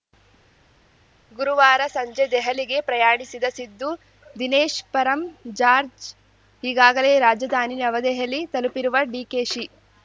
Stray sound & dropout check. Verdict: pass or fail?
pass